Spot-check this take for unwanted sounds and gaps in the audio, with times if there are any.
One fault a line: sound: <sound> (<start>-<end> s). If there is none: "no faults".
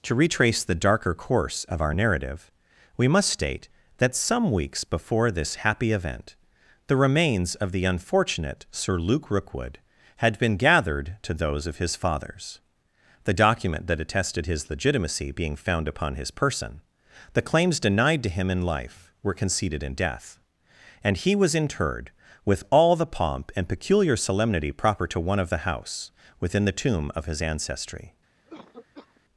sound: cough (28.5-29.2 s)